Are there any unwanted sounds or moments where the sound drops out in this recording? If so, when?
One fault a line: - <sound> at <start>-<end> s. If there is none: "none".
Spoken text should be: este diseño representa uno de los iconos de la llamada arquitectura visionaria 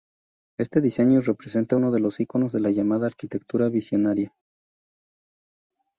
none